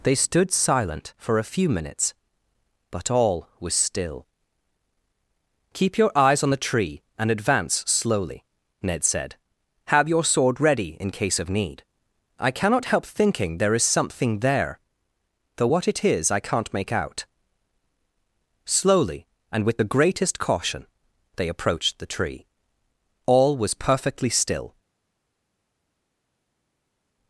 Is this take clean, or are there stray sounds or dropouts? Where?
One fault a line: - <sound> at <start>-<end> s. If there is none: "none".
none